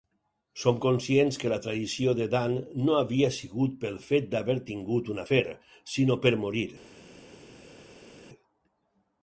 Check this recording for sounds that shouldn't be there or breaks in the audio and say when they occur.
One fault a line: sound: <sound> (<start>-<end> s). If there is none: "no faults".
no faults